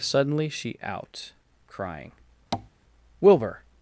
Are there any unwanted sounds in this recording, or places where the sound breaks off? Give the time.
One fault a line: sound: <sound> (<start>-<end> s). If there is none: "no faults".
sound: tap (2.5-2.7 s)